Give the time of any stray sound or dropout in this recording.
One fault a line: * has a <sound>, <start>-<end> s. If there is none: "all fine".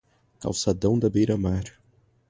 all fine